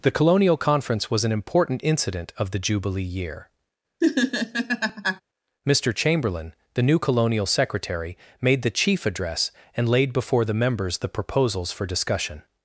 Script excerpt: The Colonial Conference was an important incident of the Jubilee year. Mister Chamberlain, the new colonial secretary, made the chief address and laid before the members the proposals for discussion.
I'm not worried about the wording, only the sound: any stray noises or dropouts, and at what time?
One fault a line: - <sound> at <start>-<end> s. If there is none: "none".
- laugh at 4.0-5.2 s